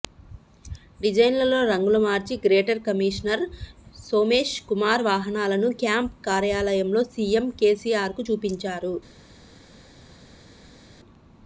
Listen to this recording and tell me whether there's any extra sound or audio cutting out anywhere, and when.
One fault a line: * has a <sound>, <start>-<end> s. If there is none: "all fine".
all fine